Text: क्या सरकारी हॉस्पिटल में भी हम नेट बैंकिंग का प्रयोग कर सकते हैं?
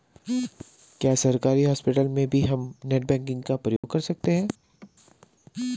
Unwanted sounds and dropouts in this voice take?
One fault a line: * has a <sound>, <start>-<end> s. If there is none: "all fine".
* has a dropout, 3.8-3.8 s
* has a laugh, 4.6-4.9 s